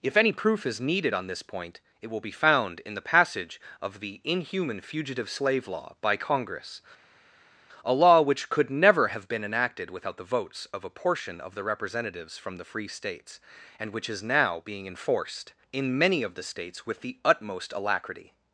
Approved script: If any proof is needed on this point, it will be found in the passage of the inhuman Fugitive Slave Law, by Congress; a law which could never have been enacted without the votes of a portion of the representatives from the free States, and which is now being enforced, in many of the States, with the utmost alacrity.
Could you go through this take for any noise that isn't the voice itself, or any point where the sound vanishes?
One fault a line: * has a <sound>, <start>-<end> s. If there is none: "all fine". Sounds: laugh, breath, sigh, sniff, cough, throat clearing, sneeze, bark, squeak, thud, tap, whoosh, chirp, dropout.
all fine